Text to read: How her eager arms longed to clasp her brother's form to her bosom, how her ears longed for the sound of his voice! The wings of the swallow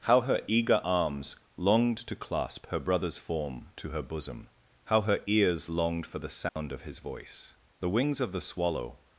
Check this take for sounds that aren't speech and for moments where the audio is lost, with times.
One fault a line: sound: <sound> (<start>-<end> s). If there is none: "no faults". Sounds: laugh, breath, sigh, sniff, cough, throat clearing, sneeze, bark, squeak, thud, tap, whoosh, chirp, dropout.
sound: dropout (6.5-6.6 s)